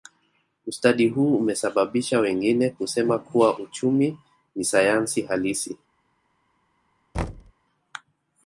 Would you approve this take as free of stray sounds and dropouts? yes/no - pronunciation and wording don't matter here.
no